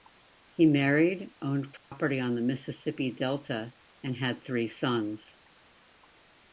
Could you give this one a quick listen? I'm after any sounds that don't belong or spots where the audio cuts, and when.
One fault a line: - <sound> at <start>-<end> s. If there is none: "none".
- dropout at 1.8-1.9 s